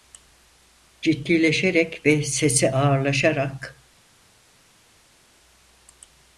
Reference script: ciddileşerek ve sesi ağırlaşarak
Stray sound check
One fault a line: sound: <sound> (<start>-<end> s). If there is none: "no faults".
no faults